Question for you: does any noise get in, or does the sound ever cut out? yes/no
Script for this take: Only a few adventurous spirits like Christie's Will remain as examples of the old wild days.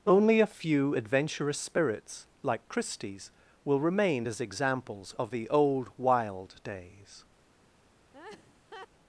yes